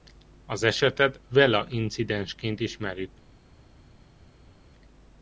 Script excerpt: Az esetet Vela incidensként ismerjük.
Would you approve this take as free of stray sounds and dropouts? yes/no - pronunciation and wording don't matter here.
yes